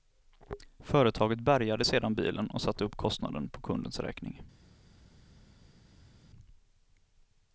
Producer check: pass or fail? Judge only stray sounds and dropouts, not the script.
pass